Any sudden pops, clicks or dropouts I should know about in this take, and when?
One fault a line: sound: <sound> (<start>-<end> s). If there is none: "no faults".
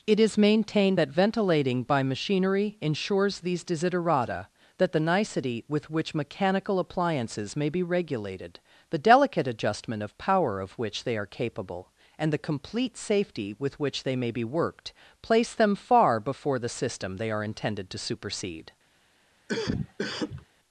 sound: cough (19.5-20.5 s)